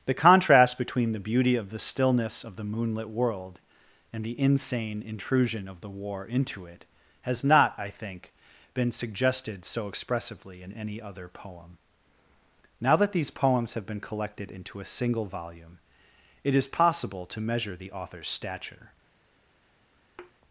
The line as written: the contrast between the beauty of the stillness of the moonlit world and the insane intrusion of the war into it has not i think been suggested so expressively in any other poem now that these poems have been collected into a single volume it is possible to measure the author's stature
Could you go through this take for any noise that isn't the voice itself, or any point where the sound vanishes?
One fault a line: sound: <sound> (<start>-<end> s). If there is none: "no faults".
sound: thud (20.2-20.3 s)